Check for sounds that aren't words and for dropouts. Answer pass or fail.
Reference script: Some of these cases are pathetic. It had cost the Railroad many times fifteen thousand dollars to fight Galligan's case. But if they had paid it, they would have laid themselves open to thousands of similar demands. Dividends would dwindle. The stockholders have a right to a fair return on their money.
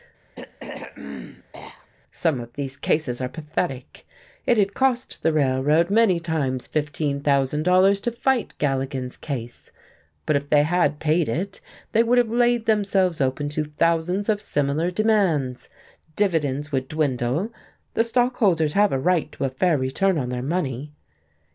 fail